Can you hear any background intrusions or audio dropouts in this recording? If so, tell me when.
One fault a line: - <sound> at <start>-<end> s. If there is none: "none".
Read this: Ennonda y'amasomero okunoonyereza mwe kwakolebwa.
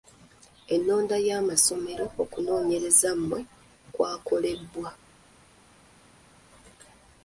none